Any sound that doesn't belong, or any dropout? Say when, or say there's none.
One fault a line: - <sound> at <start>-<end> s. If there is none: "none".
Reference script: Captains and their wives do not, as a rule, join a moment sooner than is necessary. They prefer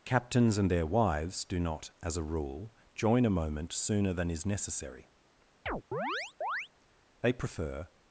- chirp at 5.7-6.7 s